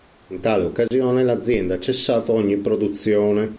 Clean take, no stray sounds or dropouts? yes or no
no